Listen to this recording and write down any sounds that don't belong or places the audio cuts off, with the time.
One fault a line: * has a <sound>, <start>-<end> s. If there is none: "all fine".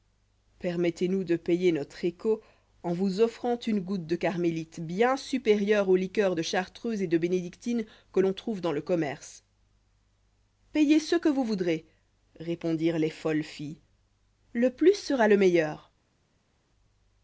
all fine